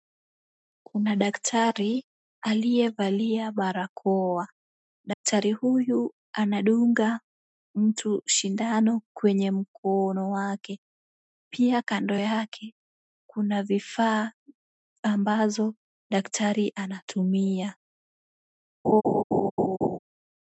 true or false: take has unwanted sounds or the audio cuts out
true